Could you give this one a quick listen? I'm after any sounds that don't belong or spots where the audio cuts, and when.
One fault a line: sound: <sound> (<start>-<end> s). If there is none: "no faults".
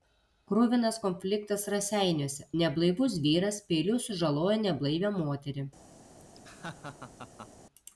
sound: laugh (6.2-7.5 s)